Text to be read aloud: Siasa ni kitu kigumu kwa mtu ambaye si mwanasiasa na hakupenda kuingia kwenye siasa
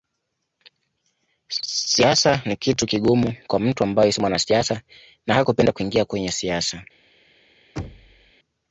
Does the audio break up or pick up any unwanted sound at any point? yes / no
yes